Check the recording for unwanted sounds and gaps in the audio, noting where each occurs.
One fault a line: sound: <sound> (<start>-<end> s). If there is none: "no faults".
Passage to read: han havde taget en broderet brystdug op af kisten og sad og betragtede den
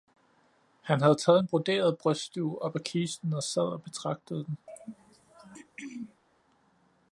sound: throat clearing (4.7-6.2 s)